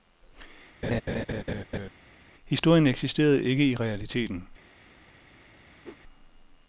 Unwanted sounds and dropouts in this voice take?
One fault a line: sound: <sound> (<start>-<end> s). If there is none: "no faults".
sound: laugh (0.8-1.9 s)
sound: whoosh (5.8-6.0 s)